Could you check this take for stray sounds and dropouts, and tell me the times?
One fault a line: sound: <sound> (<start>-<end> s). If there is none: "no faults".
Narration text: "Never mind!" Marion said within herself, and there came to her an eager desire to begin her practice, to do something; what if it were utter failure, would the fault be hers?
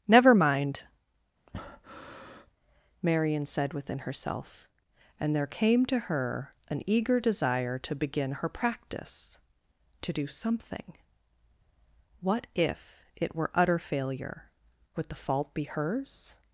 sound: breath (1.5-2.5 s)